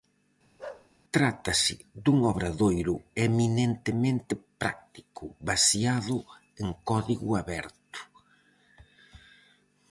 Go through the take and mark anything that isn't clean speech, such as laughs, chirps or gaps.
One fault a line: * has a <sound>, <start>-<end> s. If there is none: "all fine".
* has a bark, 0.6-0.9 s